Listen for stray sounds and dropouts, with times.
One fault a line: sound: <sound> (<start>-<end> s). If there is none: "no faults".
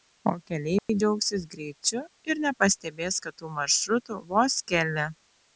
sound: dropout (0.8-0.9 s)